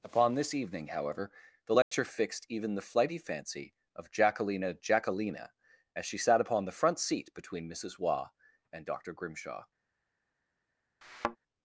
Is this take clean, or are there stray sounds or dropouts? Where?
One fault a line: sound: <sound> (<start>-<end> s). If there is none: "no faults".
sound: dropout (1.8-1.9 s)
sound: thud (11.0-11.4 s)